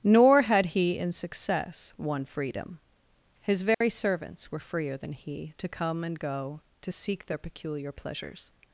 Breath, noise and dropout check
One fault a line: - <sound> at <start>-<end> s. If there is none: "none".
- dropout at 3.7-3.8 s